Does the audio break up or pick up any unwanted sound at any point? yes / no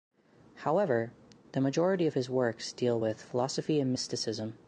no